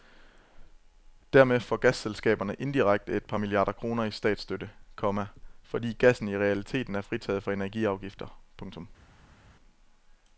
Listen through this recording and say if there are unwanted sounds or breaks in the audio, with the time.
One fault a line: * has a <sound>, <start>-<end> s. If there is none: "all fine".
all fine